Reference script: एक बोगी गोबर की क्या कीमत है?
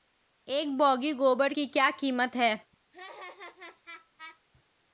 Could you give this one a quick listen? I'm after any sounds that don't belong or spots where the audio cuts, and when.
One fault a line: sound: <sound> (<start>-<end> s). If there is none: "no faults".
sound: laugh (2.9-4.4 s)